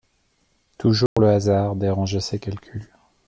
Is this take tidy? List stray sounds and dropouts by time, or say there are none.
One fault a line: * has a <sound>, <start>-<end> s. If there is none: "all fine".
* has a dropout, 1.1-1.2 s